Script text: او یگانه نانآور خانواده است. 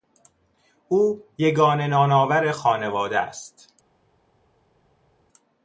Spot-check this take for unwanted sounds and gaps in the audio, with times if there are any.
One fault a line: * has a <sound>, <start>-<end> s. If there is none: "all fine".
all fine